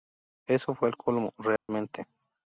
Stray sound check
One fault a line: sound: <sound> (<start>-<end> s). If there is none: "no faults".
sound: dropout (1.6-1.7 s)